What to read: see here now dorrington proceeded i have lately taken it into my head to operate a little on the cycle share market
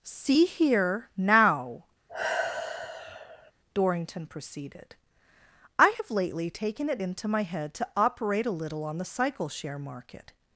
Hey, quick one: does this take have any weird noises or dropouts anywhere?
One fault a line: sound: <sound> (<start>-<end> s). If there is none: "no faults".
sound: sigh (2.1-3.5 s)